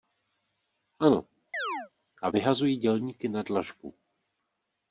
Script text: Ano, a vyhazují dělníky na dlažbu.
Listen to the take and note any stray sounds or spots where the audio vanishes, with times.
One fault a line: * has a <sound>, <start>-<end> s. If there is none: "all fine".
* has a chirp, 1.5-1.9 s